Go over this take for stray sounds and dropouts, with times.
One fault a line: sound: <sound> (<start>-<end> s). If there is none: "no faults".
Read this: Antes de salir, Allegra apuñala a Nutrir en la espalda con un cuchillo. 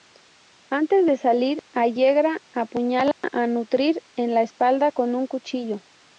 sound: dropout (3.1-3.2 s)